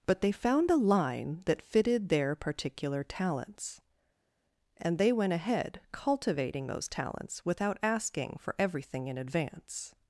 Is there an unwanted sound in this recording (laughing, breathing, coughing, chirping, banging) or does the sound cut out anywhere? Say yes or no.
no